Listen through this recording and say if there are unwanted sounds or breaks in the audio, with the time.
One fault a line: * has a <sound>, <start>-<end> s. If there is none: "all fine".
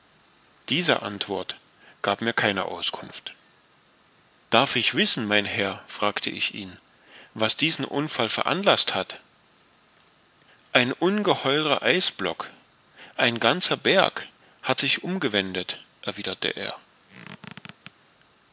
* has a squeak, 17.1-17.9 s